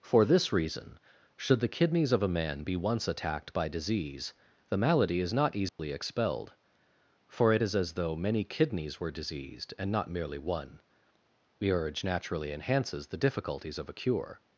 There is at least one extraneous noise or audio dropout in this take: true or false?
true